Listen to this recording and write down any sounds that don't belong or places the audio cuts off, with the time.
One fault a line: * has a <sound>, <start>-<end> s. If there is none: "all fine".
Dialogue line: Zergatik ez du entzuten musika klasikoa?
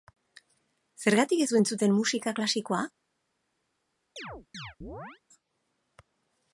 * has a chirp, 4.2-5.2 s